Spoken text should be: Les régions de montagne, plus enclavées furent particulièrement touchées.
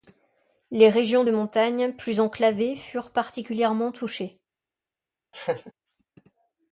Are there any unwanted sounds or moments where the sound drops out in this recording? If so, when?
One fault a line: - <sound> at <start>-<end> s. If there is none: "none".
- laugh at 5.3-5.7 s